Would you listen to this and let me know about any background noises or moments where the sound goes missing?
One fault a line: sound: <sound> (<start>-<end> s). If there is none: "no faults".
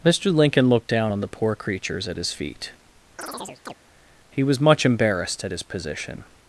sound: chirp (3.2-3.7 s)